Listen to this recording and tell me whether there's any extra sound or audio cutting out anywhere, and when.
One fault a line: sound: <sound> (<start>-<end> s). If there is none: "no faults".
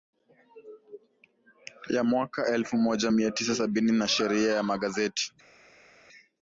no faults